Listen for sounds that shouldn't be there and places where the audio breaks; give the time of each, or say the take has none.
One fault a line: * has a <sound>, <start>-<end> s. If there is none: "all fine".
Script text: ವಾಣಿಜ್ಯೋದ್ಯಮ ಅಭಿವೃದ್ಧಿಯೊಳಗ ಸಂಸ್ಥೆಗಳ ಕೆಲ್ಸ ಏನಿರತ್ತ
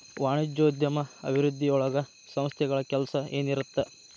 all fine